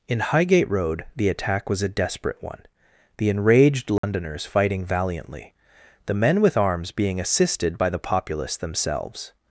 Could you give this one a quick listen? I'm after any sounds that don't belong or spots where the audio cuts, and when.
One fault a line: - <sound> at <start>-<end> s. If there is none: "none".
- dropout at 4.0-4.0 s